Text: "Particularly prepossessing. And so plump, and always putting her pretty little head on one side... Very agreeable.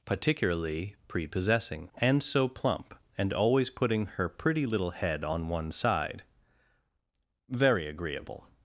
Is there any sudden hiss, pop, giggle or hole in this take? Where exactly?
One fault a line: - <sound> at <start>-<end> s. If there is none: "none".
none